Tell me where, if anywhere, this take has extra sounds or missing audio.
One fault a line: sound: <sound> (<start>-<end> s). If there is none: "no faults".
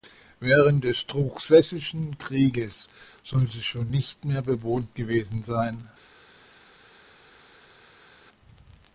no faults